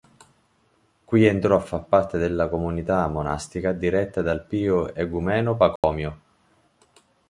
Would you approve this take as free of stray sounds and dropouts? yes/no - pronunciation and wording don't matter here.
no